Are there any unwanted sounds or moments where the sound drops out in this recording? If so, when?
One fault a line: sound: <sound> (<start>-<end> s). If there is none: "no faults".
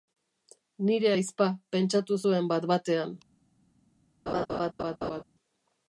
sound: laugh (4.3-5.2 s)